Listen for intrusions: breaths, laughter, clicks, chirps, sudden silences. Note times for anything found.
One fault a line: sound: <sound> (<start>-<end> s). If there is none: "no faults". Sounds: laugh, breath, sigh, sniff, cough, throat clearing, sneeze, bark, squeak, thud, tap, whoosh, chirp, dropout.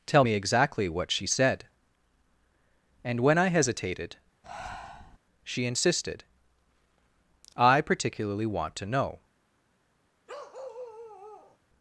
sound: breath (4.4-5.2 s)
sound: bark (10.3-11.6 s)